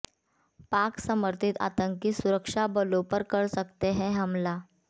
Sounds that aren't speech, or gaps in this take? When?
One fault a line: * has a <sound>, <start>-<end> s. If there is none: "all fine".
all fine